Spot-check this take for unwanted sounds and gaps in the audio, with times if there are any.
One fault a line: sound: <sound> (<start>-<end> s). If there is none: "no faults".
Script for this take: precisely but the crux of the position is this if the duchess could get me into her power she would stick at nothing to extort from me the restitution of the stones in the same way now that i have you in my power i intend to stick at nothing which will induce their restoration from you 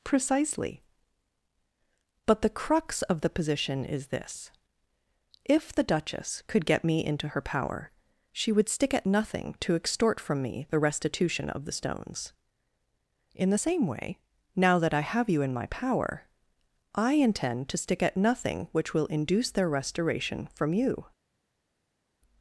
no faults